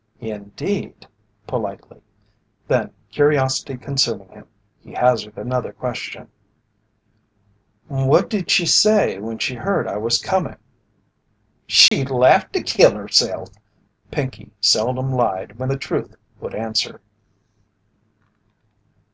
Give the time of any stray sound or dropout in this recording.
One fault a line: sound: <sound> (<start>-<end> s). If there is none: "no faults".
sound: dropout (11.9-11.9 s)